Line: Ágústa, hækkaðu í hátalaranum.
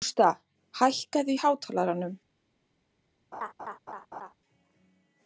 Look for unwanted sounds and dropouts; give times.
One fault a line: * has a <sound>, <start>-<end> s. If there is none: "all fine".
* has a laugh, 3.3-4.3 s